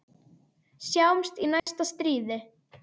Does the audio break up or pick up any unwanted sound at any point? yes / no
yes